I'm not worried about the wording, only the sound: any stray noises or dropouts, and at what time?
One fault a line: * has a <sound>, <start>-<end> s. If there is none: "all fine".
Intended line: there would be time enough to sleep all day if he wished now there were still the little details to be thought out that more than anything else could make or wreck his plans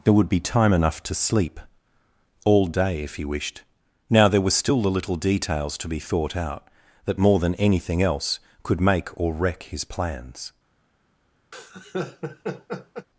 * has a laugh, 11.5-13.1 s